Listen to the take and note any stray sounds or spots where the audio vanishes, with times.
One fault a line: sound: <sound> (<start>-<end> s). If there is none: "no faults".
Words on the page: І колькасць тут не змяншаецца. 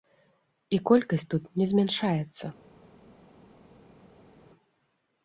no faults